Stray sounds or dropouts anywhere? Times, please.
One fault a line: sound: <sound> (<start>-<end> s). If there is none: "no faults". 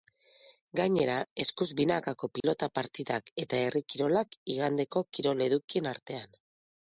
sound: dropout (2.4-2.4 s)